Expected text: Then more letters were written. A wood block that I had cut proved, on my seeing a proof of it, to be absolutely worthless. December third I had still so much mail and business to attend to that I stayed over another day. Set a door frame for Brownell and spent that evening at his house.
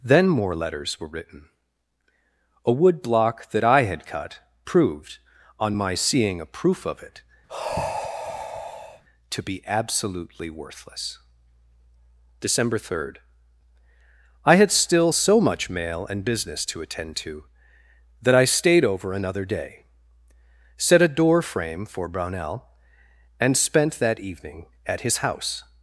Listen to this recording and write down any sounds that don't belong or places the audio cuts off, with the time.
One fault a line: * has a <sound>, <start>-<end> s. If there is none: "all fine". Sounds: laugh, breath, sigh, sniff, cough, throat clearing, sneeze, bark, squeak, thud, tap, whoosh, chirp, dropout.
* has a sigh, 7.5-9.0 s